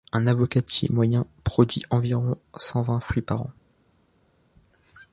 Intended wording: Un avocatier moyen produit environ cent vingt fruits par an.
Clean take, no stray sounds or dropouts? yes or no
yes